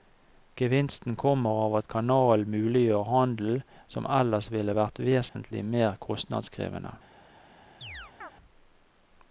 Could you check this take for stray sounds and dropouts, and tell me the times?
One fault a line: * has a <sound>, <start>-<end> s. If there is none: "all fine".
* has a dropout, 5.3-5.3 s
* has a chirp, 7.8-8.3 s